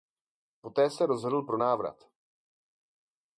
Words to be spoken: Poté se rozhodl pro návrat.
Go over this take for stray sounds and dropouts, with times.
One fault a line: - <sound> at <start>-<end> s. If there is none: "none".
none